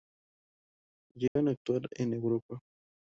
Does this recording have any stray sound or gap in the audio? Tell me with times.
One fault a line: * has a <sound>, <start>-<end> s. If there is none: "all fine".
* has a dropout, 1.3-1.4 s